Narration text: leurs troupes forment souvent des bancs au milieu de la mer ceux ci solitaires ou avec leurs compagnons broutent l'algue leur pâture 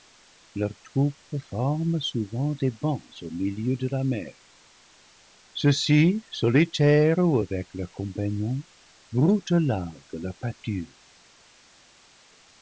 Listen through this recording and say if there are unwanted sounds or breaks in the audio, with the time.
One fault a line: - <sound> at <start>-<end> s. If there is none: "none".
none